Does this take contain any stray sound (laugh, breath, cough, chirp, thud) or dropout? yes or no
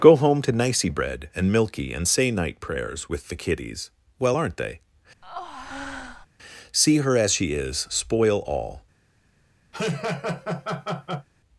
yes